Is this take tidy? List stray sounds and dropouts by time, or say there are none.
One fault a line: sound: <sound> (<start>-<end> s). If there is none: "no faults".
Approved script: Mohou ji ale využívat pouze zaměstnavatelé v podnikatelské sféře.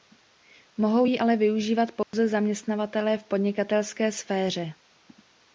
sound: dropout (2.0-2.1 s)